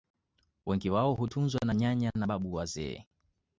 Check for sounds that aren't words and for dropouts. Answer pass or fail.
pass